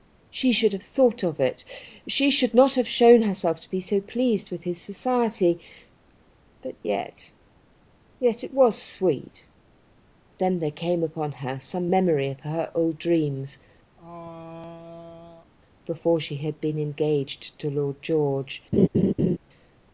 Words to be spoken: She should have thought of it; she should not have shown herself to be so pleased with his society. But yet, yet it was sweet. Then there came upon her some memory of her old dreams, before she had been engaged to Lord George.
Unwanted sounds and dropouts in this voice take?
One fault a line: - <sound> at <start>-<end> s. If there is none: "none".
- throat clearing at 14.0-15.5 s
- laugh at 18.7-19.4 s